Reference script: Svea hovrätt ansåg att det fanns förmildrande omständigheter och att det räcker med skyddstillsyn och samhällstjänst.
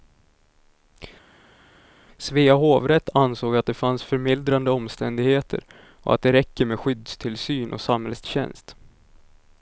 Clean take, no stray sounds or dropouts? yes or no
yes